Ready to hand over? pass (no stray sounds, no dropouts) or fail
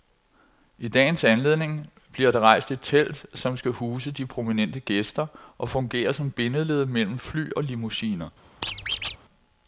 fail